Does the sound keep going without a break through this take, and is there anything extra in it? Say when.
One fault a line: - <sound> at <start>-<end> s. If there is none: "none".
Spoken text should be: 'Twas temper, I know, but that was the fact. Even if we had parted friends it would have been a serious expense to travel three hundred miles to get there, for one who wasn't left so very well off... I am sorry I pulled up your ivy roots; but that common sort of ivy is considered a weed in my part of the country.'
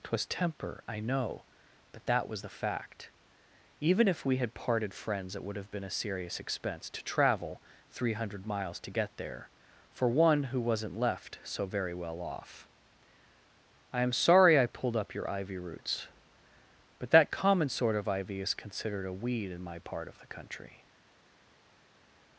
none